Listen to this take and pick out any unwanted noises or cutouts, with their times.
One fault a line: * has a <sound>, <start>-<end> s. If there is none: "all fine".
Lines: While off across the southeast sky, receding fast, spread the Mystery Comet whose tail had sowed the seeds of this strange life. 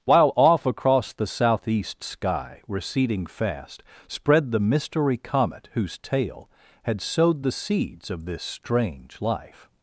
all fine